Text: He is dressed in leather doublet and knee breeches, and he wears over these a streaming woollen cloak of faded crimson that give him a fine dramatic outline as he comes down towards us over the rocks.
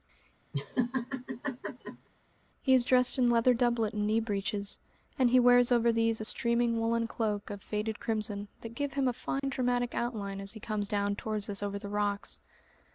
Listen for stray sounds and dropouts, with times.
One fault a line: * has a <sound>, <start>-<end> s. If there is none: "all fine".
* has a laugh, 0.5-2.1 s
* has a dropout, 9.4-9.4 s